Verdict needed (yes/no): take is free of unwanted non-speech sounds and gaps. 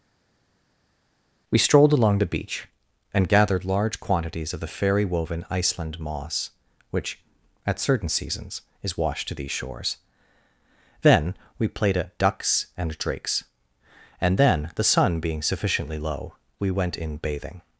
yes